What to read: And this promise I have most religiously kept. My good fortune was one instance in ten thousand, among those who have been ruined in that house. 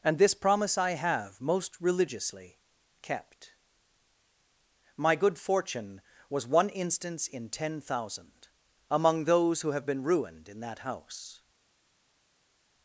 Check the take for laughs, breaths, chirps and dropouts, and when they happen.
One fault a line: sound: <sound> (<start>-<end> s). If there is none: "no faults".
no faults